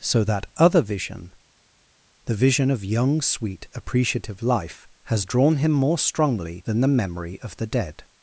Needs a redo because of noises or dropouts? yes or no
no